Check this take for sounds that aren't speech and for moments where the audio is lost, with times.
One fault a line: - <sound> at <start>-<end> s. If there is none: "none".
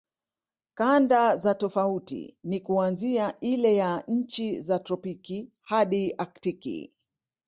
none